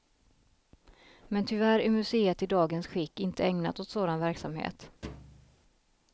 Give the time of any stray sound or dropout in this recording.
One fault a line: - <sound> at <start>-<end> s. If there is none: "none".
- thud at 5.0-5.6 s